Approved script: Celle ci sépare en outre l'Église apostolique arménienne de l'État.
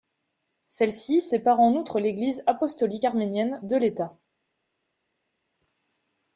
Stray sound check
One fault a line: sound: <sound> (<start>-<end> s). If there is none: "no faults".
no faults